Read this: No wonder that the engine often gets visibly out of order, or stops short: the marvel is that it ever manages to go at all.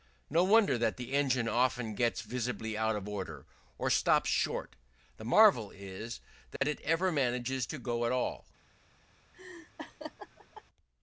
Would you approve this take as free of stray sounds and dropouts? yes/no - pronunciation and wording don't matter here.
no